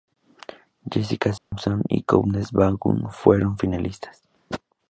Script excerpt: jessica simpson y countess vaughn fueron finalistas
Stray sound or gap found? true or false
true